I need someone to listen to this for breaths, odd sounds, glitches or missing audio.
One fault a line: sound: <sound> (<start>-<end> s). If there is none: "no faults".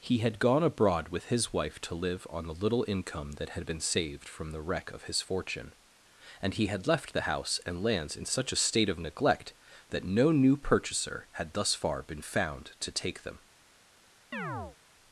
sound: chirp (14.3-14.8 s)